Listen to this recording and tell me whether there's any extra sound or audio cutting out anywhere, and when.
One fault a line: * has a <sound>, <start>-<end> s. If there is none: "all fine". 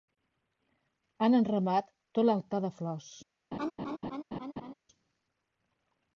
* has a laugh, 3.5-4.7 s